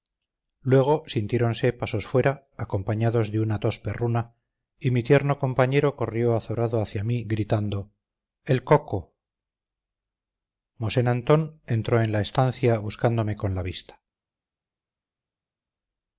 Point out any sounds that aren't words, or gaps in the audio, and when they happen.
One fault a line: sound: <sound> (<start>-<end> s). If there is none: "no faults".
no faults